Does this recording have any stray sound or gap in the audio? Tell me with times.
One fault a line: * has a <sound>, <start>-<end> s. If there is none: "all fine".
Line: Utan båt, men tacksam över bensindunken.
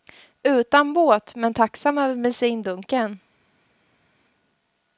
all fine